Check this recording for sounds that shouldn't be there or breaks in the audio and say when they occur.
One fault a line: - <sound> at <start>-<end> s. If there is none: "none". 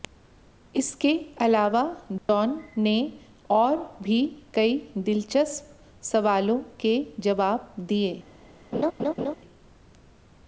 - dropout at 2.2-2.3 s
- laugh at 8.7-9.4 s